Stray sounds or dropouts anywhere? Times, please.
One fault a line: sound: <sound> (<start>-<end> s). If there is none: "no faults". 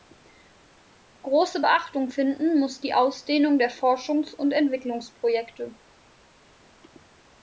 no faults